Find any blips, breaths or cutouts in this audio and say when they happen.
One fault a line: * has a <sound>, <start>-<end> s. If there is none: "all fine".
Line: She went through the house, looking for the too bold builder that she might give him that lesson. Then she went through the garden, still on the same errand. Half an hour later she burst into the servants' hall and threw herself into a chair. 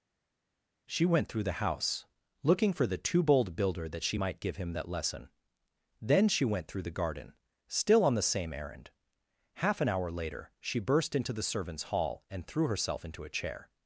all fine